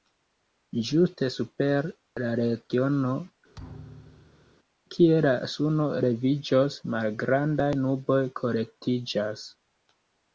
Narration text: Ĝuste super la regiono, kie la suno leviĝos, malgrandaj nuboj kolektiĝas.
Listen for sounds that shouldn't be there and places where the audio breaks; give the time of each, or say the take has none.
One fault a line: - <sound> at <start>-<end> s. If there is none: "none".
- thud at 3.5-4.6 s